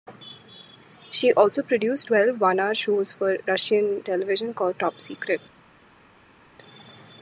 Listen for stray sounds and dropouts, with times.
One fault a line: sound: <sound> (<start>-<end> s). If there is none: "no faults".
no faults